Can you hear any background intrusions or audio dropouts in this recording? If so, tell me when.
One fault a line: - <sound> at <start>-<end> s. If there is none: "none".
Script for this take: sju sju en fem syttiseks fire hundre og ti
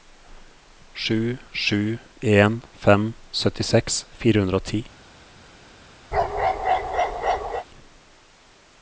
- bark at 6.1-7.7 s